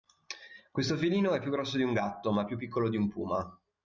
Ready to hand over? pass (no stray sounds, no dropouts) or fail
pass